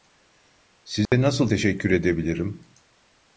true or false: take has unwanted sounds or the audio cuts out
true